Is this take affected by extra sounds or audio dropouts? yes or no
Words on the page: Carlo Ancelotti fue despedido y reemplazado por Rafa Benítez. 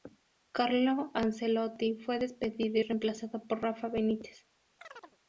yes